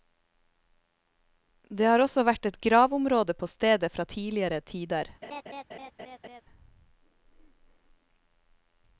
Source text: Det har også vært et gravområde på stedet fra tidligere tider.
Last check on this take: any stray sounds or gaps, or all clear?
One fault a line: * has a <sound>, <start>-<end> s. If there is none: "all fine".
* has a laugh, 5.2-6.4 s